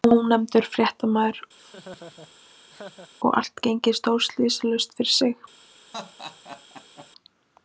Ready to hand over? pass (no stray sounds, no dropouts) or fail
fail